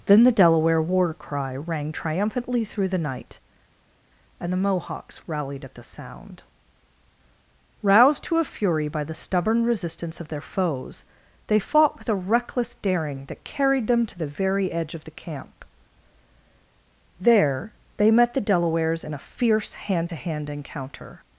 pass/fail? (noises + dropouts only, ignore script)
pass